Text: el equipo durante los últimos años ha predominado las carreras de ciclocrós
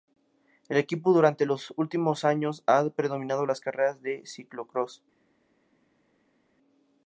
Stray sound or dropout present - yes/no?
no